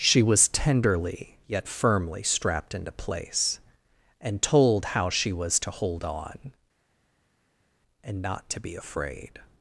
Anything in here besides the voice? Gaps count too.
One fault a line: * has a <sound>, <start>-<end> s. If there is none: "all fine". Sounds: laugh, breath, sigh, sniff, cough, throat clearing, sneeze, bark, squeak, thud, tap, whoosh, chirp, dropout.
all fine